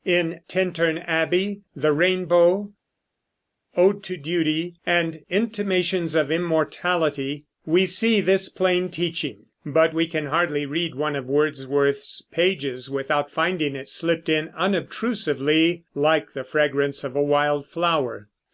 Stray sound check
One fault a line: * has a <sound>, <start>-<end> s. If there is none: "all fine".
all fine